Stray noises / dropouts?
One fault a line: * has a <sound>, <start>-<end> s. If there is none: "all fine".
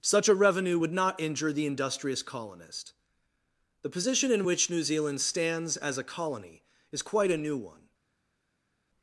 all fine